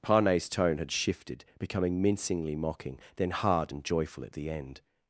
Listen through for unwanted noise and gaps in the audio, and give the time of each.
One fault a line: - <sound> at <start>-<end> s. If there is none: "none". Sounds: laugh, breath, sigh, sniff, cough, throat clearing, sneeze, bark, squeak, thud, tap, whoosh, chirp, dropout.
none